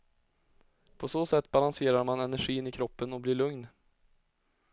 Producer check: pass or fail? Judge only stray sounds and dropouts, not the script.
pass